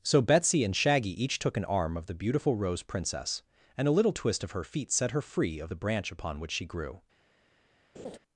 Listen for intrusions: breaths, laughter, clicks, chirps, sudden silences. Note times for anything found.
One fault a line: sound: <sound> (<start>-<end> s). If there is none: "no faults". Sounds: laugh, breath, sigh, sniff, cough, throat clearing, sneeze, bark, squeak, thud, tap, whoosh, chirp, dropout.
sound: laugh (7.9-8.2 s)